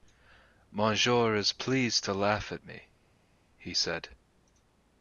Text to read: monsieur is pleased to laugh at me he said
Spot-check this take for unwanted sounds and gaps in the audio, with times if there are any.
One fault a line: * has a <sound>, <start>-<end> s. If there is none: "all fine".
all fine